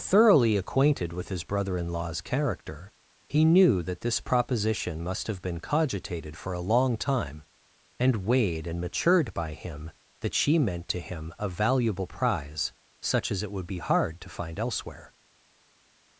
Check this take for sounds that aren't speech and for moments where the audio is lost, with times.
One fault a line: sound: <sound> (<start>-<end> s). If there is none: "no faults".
no faults